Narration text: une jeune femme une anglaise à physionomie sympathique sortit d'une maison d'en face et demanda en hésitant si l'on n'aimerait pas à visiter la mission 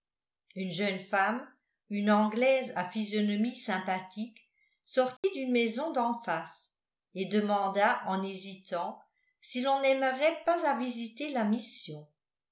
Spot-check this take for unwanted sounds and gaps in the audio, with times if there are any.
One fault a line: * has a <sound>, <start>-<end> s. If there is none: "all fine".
* has a dropout, 5.2-5.2 s